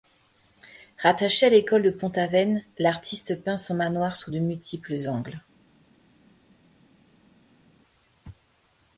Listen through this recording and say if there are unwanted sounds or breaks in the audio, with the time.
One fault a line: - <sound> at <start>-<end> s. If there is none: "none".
none